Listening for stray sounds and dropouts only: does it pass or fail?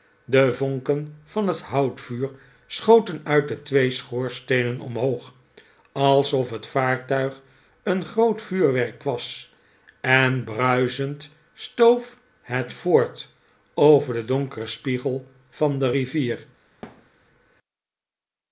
fail